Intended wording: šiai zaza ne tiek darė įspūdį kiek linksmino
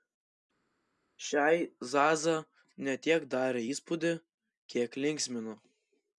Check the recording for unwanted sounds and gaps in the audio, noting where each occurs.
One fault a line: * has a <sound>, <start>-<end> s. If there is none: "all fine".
all fine